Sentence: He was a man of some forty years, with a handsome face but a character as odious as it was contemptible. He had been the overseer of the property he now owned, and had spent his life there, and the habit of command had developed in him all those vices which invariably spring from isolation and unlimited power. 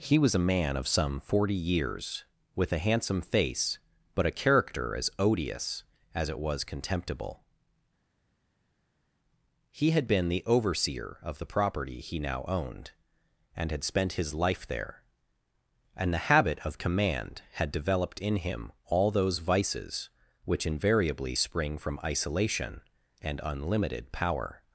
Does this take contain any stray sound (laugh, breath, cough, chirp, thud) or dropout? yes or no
no